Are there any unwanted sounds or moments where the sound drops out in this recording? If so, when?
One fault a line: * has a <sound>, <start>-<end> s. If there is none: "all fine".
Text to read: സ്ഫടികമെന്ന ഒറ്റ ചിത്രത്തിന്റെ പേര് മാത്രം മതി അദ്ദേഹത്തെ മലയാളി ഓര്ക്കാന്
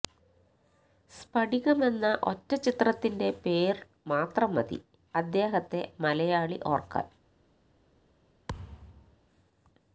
* has a thud, 8.5-9.2 s